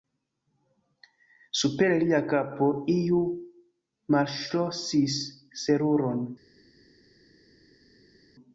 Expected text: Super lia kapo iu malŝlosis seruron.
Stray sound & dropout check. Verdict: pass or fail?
pass